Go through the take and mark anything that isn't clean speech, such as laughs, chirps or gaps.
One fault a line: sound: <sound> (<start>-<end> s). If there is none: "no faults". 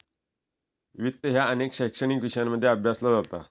no faults